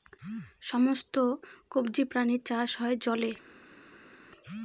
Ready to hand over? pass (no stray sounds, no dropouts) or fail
pass